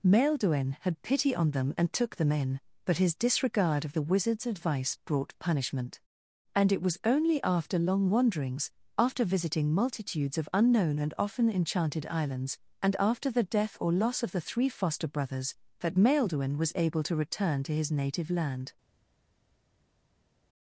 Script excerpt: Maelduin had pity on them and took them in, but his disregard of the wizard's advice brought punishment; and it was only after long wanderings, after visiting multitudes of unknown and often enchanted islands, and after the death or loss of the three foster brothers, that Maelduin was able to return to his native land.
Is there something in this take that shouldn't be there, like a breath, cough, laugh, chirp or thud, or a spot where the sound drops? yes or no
no